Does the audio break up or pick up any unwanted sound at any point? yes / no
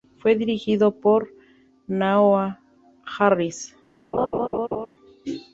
yes